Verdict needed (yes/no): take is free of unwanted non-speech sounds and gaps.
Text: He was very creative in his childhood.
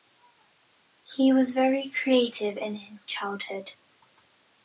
yes